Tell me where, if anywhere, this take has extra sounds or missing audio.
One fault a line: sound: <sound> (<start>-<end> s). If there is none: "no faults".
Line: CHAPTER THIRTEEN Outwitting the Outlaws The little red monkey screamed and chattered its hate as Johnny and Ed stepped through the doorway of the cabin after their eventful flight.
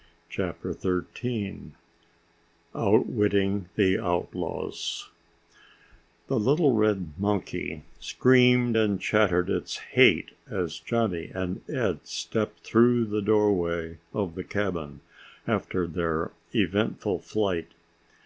no faults